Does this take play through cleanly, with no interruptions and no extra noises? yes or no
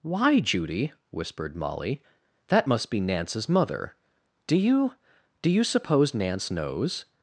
yes